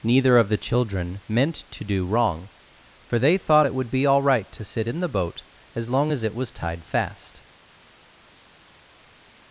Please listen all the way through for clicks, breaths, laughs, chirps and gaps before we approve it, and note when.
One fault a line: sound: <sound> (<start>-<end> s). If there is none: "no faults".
no faults